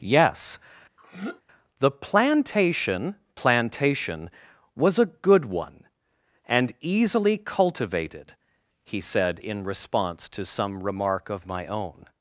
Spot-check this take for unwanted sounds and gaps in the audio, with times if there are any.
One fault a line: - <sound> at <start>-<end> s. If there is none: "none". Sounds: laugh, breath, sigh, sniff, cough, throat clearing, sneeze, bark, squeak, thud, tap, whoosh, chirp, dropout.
- throat clearing at 1.0-1.4 s